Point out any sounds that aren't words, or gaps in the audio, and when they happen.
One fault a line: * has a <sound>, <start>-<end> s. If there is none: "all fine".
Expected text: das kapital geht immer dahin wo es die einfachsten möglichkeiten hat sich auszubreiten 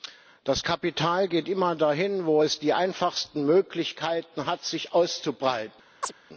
* has a chirp, 6.0-6.1 s